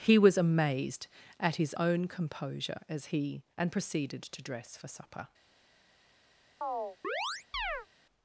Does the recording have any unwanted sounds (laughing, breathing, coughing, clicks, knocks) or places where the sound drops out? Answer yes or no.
yes